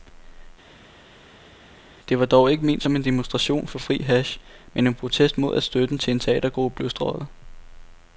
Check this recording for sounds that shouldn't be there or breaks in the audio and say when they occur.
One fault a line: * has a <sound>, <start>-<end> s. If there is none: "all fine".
all fine